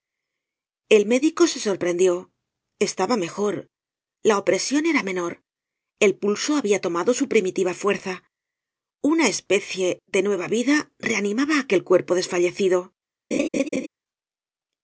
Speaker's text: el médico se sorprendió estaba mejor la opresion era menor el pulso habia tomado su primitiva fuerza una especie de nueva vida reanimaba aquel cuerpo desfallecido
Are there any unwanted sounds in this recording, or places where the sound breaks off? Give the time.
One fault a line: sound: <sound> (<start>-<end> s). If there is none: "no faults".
sound: laugh (13.3-13.9 s)